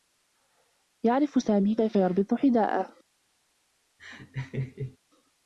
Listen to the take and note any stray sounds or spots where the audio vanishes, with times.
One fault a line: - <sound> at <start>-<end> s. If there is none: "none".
- laugh at 4.0-5.0 s